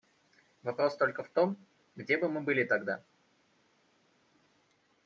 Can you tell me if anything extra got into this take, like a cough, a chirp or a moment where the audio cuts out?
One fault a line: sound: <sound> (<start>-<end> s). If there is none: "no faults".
no faults